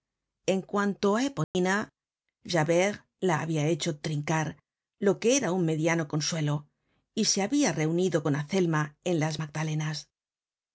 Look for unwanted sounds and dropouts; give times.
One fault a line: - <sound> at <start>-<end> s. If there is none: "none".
- dropout at 1.4-1.5 s